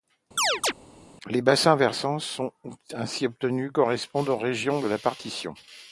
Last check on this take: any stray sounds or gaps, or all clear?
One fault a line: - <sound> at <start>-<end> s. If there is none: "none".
- chirp at 0.4-0.7 s